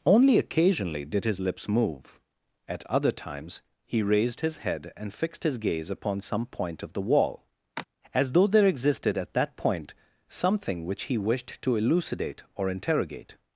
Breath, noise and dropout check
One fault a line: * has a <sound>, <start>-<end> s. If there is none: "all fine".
* has a sigh, 7.8-7.9 s